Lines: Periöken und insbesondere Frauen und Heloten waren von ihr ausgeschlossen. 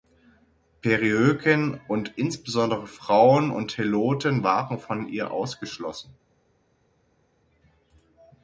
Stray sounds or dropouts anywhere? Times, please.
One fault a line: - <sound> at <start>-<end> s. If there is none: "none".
none